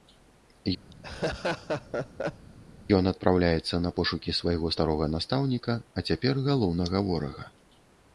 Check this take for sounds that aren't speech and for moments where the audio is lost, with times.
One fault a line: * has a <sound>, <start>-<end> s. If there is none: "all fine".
* has a laugh, 0.9-2.5 s